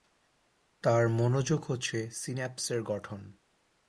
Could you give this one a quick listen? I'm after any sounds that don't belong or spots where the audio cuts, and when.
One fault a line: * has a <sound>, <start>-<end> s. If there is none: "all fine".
all fine